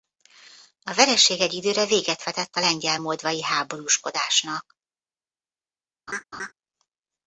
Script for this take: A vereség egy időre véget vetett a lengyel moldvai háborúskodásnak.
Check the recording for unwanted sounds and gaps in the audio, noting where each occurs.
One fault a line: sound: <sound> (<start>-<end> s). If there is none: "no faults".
sound: laugh (6.1-6.5 s)